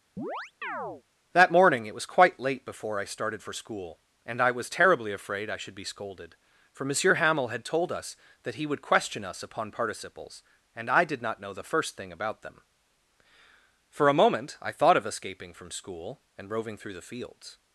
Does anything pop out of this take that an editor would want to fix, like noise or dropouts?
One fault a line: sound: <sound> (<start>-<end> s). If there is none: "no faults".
sound: chirp (0.2-1.0 s)